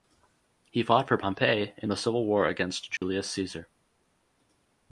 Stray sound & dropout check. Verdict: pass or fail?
fail